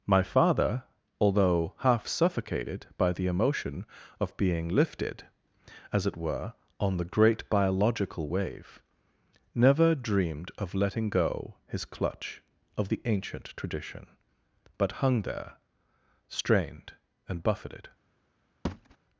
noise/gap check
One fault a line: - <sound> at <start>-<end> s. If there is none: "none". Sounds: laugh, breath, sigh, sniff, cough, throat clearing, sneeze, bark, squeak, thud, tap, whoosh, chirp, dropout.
- thud at 18.6-19.0 s